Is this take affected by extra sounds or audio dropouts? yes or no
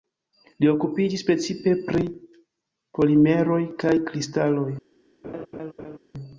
yes